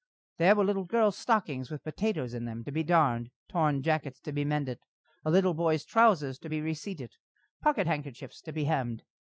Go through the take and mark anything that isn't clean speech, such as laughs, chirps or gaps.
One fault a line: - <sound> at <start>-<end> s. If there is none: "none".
none